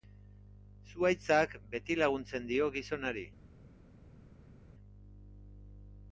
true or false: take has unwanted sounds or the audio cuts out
false